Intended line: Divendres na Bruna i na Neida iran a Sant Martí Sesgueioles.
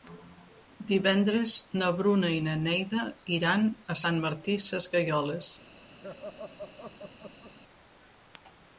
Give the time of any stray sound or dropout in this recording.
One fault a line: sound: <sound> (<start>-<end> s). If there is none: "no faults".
sound: laugh (6.0-7.5 s)